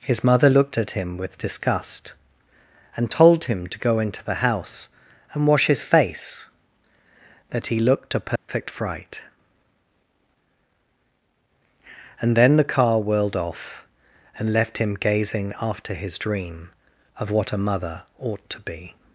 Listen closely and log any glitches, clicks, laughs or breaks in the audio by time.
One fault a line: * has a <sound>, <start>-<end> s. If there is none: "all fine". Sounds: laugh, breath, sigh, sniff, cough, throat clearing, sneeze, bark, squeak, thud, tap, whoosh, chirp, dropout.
* has a dropout, 8.4-8.5 s